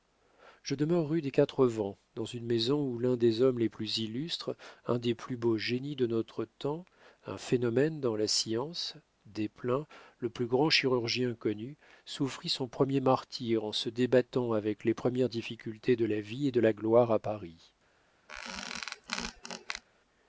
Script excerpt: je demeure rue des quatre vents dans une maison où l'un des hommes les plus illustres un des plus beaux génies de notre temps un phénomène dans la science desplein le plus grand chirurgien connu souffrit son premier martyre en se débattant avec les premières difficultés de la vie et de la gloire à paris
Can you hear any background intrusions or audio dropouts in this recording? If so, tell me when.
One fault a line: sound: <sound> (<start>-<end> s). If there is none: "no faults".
sound: squeak (18.3-19.8 s)